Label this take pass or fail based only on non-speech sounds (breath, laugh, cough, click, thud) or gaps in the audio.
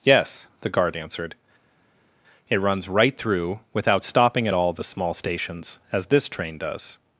pass